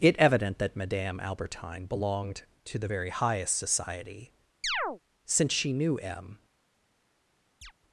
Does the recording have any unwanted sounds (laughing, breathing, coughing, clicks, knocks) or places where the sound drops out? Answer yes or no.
yes